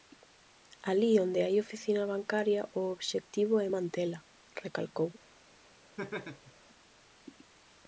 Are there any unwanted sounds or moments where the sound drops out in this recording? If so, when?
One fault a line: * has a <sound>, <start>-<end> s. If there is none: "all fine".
* has a laugh, 6.0-6.5 s